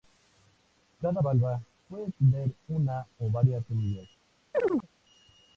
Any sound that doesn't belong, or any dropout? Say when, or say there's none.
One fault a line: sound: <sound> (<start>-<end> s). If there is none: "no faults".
sound: chirp (4.5-4.9 s)